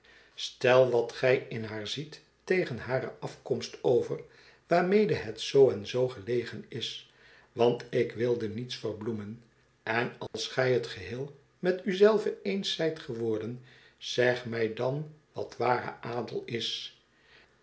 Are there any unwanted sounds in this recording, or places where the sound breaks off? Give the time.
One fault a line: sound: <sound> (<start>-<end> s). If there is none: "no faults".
sound: dropout (10.3-10.3 s)